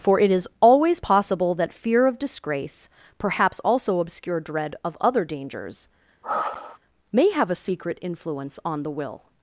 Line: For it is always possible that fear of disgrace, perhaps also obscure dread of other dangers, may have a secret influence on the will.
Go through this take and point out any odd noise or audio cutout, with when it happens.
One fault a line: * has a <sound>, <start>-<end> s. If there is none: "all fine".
* has a sigh, 6.2-6.8 s